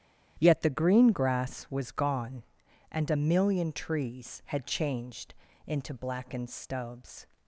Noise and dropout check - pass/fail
pass